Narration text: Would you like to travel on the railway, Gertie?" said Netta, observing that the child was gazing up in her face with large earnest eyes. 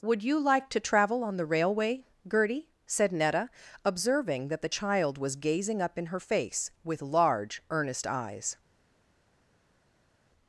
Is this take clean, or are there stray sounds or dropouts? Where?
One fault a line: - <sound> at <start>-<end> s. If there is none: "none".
none